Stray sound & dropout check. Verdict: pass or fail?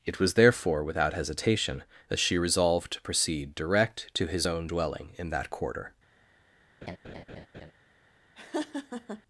fail